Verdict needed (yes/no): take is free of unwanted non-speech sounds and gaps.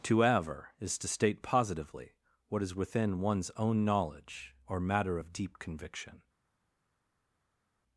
yes